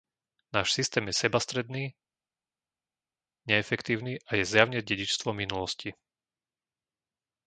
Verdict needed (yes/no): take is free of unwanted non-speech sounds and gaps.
yes